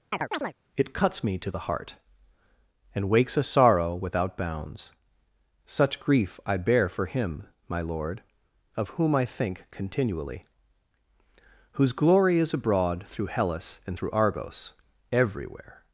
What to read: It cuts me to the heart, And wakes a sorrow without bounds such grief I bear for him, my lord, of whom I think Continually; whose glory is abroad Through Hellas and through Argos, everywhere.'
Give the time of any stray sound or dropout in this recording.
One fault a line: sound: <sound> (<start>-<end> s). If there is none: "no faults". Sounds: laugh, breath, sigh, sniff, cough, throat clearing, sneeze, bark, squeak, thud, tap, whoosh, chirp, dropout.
sound: chirp (0.1-0.5 s)